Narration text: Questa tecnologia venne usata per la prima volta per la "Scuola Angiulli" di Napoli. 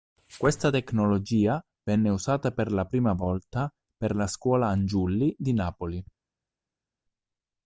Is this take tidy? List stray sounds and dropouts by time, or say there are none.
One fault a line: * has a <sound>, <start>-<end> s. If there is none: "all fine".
all fine